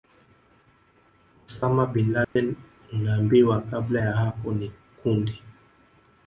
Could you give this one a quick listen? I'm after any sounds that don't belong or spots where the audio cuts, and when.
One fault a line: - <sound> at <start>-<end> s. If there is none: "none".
- dropout at 2.2-2.4 s